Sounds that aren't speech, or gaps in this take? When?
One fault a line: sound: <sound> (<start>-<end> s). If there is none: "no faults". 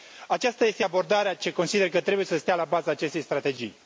no faults